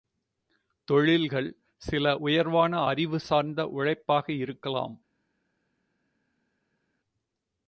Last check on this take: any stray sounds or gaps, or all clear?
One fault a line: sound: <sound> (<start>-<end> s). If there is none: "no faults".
no faults